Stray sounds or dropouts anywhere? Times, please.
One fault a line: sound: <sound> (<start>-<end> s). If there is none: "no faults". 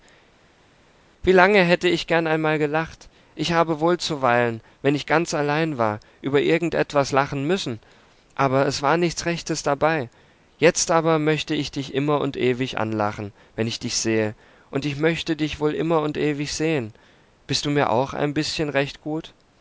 no faults